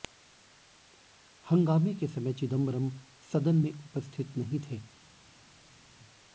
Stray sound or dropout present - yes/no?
no